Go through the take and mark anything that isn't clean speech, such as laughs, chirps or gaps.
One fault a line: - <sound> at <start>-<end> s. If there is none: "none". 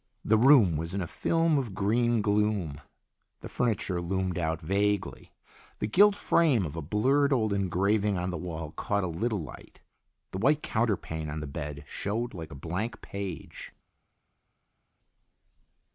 none